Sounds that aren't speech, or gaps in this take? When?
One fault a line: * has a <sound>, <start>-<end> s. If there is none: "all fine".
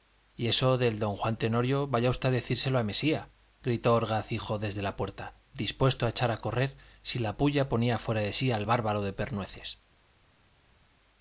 all fine